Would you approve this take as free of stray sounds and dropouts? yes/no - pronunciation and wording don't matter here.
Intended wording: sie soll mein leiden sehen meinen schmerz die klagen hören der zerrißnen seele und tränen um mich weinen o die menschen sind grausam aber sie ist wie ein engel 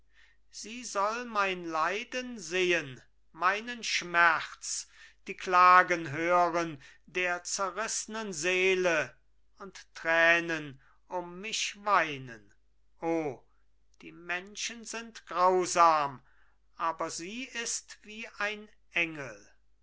yes